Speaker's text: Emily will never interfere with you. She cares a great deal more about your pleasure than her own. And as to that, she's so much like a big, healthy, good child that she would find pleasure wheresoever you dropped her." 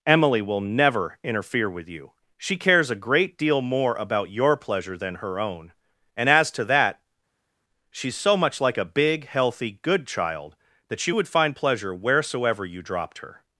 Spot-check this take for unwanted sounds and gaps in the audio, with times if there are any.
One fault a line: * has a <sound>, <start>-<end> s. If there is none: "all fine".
all fine